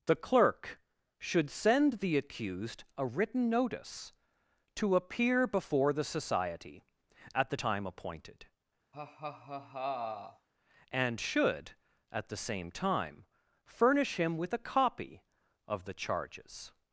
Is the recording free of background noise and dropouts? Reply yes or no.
no